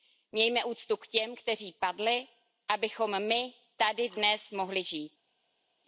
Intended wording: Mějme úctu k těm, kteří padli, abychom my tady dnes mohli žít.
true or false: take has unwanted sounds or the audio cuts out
false